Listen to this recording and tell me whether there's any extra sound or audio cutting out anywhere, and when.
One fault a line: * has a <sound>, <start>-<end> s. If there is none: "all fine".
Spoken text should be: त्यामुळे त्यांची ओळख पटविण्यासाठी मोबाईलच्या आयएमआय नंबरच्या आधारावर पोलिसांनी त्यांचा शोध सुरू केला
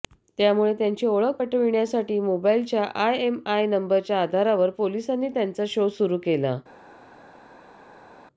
all fine